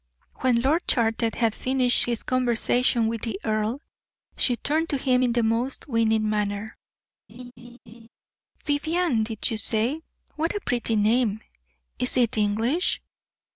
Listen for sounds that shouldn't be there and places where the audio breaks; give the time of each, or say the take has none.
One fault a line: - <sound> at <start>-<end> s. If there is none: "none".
- laugh at 7.3-8.1 s